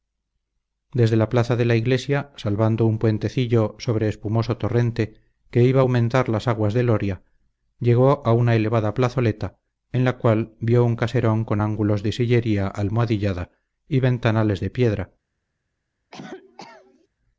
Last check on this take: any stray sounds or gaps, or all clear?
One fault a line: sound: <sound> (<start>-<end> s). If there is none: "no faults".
sound: cough (16.1-17.1 s)